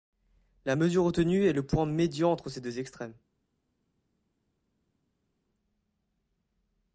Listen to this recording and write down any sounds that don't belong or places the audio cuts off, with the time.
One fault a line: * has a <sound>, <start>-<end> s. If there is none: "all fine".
all fine